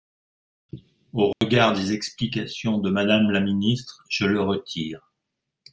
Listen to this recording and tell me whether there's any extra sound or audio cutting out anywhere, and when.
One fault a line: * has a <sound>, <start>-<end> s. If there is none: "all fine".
* has a dropout, 1.3-1.4 s